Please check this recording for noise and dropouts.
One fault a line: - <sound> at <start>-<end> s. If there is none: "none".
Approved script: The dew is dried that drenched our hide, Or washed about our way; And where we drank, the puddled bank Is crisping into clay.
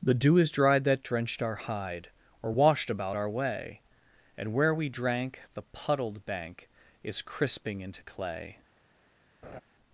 - laugh at 9.4-9.6 s